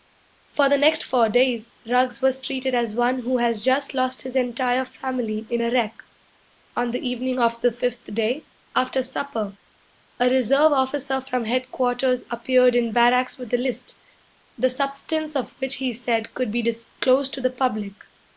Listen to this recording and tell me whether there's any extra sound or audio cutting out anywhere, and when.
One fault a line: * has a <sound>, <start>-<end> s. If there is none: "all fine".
all fine